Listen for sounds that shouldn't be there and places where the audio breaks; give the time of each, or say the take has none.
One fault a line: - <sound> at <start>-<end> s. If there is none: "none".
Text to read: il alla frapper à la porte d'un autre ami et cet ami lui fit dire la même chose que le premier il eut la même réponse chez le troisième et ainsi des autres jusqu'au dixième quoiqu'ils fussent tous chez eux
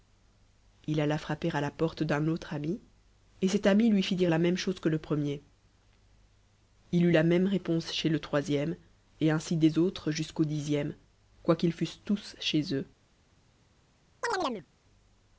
- chirp at 14.2-14.7 s